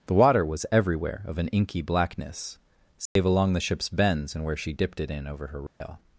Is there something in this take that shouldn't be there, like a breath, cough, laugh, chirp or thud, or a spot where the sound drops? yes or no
yes